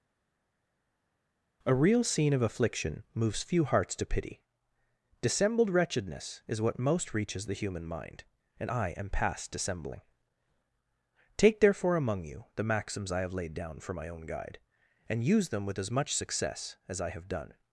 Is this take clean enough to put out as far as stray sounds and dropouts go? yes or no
yes